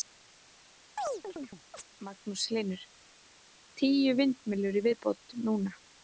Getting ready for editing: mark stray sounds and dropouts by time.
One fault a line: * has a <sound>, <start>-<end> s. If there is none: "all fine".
* has a chirp, 1.0-1.8 s